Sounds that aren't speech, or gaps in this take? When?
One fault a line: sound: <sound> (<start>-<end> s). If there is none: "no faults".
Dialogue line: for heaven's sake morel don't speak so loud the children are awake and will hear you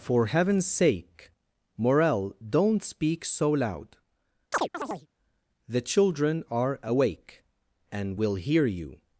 sound: chirp (4.5-5.1 s)